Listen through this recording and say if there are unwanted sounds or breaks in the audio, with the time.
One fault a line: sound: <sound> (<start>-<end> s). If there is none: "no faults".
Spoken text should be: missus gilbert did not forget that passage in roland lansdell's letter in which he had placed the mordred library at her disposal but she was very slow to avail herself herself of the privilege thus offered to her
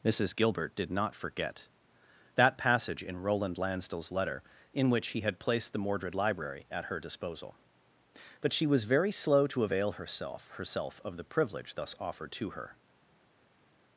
no faults